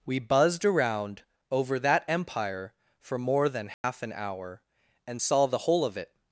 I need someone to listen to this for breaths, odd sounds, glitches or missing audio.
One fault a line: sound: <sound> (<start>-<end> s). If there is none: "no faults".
sound: dropout (3.7-3.8 s)